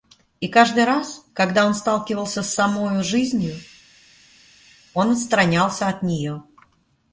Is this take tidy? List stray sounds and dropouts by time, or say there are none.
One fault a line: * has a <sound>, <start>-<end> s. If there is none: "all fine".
all fine